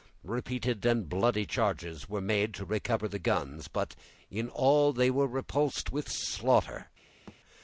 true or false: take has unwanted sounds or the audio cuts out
true